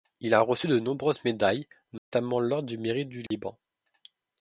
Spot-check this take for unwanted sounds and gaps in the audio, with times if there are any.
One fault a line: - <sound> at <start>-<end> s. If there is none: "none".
- dropout at 2.0-2.1 s
- dropout at 3.3-3.3 s